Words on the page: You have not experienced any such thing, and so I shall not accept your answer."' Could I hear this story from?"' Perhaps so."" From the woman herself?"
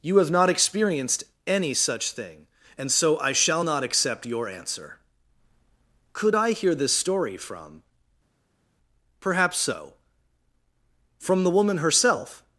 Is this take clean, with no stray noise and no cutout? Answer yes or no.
yes